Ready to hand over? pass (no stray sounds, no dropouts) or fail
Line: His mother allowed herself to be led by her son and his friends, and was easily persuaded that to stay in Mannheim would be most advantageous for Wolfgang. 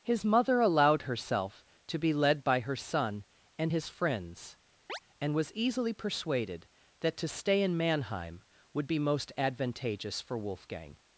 fail